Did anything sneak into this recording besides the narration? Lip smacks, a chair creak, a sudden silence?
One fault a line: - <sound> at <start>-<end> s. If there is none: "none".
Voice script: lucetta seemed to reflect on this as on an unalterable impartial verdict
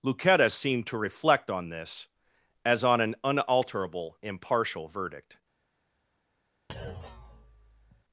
- thud at 6.7-8.0 s